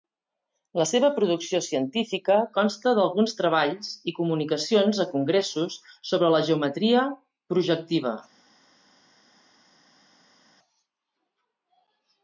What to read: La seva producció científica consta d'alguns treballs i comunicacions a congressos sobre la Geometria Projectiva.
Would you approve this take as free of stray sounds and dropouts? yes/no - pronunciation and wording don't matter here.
yes